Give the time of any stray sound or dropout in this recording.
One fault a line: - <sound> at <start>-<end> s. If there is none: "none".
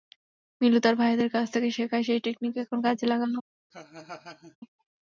- laugh at 3.7-4.6 s